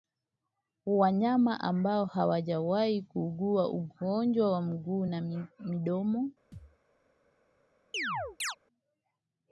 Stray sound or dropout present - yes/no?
yes